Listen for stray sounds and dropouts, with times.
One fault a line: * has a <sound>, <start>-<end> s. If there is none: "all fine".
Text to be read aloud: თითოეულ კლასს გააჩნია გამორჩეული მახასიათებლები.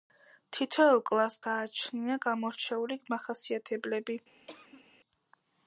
* has a cough, 4.5-4.9 s